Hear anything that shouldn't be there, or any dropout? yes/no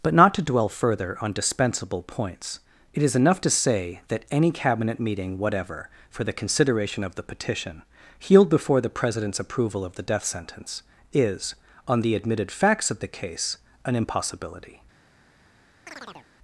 yes